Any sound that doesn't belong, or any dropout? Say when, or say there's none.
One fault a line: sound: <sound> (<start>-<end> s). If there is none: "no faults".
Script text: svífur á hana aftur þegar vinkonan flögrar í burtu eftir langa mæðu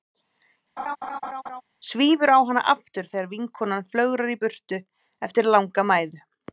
sound: laugh (0.8-1.6 s)